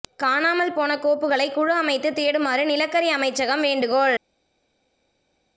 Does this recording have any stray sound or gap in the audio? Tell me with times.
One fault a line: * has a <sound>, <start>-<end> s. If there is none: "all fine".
all fine